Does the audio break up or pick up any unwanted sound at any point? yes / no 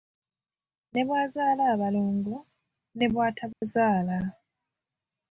yes